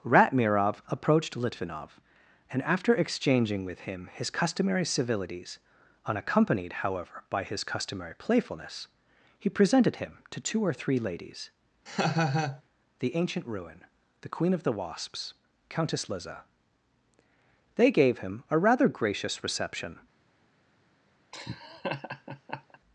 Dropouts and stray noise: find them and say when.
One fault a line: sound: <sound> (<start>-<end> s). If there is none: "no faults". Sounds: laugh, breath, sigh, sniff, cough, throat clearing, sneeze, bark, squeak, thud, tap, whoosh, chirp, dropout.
sound: laugh (11.9-12.6 s)
sound: laugh (21.3-22.8 s)